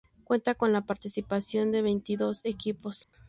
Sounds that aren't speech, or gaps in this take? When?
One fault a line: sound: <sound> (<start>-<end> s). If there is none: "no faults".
sound: dropout (3.0-3.1 s)